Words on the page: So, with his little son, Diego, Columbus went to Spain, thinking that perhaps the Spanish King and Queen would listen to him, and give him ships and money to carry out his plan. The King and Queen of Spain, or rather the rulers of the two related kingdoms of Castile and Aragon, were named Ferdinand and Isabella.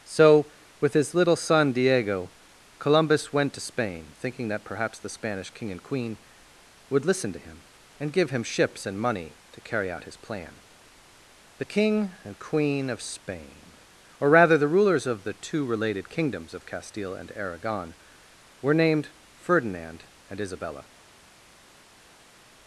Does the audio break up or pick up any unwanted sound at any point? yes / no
no